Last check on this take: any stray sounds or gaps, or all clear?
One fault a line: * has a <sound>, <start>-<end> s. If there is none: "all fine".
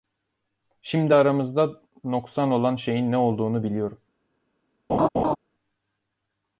* has a laugh, 4.9-5.4 s